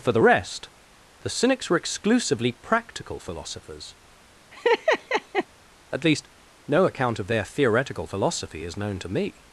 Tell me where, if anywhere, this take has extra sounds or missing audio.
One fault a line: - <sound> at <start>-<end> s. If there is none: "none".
- laugh at 4.5-5.5 s